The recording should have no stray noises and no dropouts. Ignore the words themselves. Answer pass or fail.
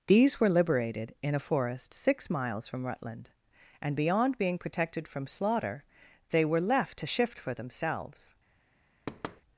fail